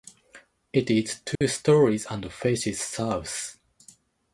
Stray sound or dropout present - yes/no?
yes